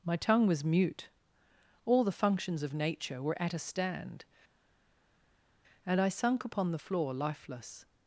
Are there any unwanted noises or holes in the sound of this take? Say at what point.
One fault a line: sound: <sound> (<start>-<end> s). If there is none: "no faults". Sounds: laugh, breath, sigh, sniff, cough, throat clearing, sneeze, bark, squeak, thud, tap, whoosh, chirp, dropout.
no faults